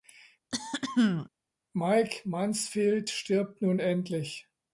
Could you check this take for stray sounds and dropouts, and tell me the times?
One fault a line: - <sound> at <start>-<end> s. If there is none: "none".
- throat clearing at 0.5-1.3 s